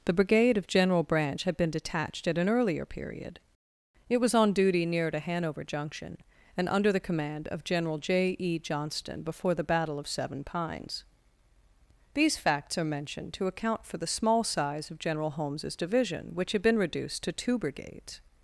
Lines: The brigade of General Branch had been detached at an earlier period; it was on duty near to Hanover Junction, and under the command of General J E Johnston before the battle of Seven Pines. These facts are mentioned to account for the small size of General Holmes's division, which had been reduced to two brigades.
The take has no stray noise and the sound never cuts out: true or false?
true